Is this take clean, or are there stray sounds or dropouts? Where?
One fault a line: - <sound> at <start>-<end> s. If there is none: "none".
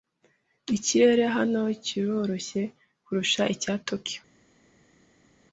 none